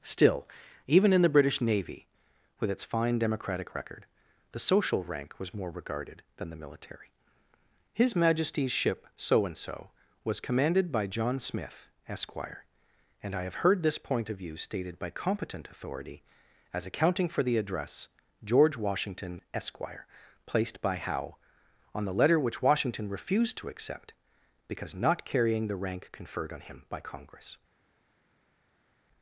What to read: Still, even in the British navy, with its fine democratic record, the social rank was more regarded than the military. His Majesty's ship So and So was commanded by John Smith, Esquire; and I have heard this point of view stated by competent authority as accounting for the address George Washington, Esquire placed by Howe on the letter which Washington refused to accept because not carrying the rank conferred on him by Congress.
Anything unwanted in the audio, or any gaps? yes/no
no